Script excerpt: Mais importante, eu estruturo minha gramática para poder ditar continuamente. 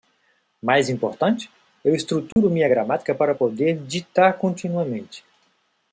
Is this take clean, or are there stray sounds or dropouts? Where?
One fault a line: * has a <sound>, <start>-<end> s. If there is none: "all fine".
* has a dropout, 2.3-2.4 s